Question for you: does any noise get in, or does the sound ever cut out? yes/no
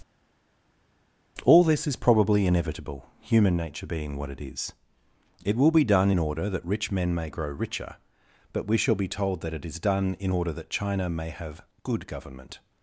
no